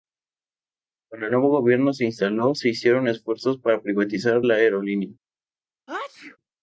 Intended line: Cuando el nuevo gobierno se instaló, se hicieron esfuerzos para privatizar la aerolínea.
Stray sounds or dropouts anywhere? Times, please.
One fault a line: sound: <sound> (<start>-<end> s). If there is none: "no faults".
sound: sneeze (5.9-6.4 s)